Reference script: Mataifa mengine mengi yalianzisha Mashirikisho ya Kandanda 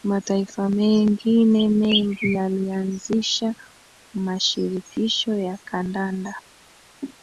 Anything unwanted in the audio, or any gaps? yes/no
no